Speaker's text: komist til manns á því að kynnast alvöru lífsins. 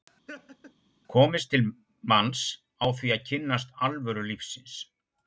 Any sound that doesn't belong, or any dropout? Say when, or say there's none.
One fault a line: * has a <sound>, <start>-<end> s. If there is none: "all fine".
* has a laugh, 0.3-0.7 s